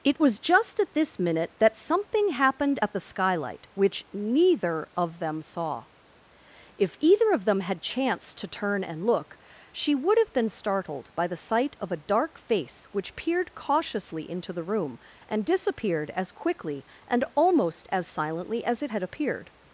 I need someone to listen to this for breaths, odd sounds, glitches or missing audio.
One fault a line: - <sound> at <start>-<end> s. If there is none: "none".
none